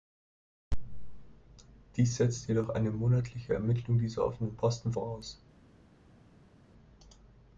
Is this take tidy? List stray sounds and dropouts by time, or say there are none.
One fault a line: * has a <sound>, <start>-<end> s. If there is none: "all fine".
all fine